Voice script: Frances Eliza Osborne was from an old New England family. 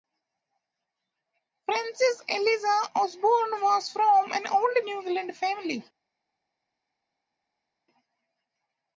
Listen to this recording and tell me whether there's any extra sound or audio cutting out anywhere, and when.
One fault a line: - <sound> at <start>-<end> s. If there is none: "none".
none